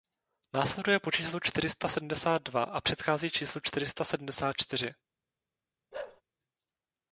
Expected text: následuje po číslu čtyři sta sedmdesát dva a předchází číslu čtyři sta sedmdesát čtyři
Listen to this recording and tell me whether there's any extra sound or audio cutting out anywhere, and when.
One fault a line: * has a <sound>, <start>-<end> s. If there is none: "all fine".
* has a bark, 5.9-6.2 s